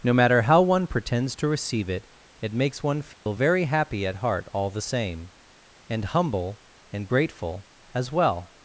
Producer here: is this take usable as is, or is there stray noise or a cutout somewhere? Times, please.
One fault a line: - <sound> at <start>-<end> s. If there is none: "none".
- dropout at 3.1-3.3 s